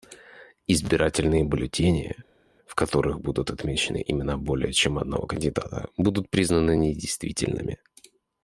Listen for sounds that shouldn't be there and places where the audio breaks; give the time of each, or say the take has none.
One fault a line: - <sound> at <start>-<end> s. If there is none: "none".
none